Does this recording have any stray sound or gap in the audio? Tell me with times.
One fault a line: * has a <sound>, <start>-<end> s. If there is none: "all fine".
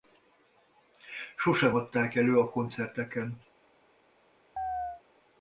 * has a chirp, 4.6-5.0 s